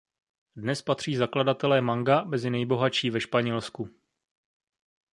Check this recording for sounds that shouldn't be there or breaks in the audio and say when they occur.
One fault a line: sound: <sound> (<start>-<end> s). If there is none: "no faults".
no faults